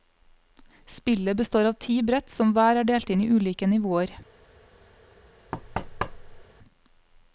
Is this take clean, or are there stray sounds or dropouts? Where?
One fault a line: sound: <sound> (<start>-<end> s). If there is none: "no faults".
sound: thud (5.5-6.4 s)